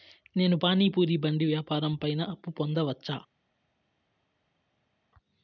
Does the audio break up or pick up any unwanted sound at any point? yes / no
no